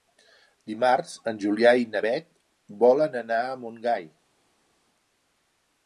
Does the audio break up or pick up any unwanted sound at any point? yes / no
no